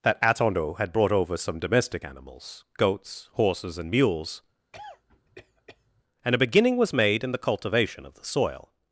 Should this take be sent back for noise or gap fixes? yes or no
yes